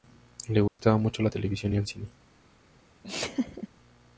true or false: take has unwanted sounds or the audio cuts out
true